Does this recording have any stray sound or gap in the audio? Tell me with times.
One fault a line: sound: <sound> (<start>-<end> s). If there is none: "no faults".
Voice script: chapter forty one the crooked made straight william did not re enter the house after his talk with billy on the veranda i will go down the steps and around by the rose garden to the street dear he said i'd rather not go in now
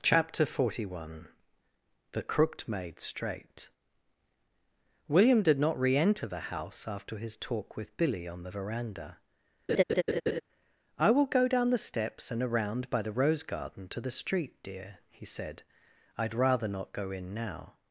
sound: laugh (9.7-10.4 s)